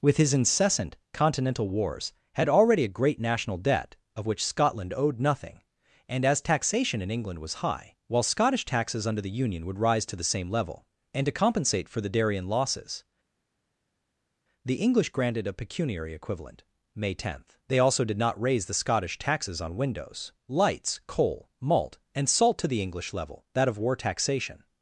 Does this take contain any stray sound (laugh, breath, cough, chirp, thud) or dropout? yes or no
no